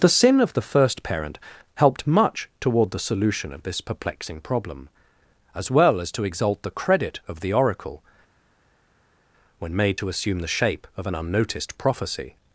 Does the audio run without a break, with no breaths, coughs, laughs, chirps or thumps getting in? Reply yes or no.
yes